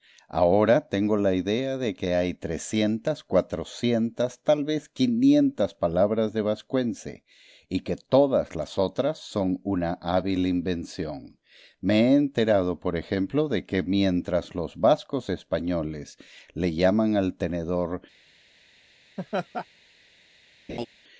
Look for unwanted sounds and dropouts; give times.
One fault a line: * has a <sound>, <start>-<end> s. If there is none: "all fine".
* has a laugh, 19.2-19.7 s
* has a laugh, 20.7-20.9 s